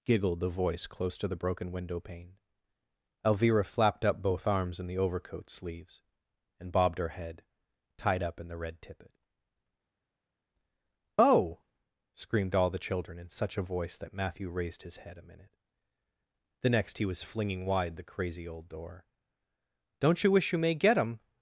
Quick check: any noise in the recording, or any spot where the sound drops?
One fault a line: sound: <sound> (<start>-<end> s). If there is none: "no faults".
no faults